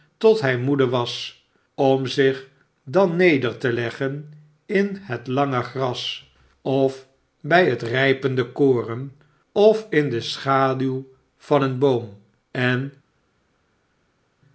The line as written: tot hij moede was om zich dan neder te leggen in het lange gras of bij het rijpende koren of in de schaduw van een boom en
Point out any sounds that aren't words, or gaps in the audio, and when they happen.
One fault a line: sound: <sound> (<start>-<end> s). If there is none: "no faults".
no faults